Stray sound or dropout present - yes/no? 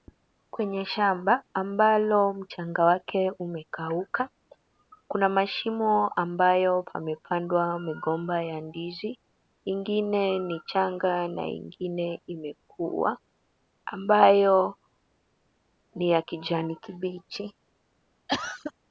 yes